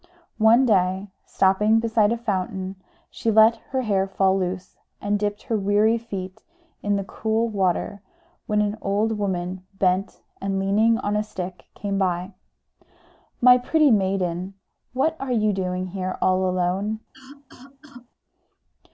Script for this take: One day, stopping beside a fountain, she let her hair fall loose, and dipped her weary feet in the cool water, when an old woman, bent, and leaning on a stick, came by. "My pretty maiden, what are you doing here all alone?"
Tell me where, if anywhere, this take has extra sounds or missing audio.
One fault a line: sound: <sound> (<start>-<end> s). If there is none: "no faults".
sound: cough (17.1-18.1 s)